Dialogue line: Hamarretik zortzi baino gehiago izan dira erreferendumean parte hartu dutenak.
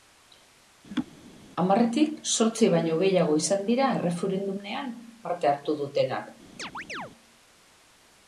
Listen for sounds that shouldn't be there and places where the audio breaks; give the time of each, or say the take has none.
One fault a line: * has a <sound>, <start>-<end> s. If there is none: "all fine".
* has a laugh, 0.9-1.1 s
* has a chirp, 6.6-7.1 s